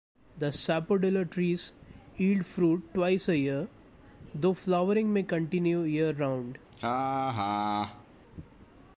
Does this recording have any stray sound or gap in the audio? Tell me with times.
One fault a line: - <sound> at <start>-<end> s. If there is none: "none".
- laugh at 6.7-8.0 s